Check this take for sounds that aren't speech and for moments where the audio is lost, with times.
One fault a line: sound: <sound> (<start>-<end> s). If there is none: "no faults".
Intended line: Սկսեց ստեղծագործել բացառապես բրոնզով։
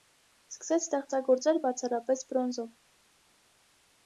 no faults